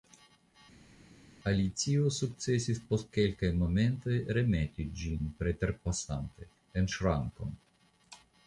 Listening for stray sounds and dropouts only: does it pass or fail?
pass